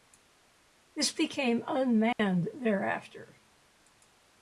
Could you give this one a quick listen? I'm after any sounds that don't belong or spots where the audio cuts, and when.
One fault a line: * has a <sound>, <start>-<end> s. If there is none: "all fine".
* has a dropout, 2.1-2.2 s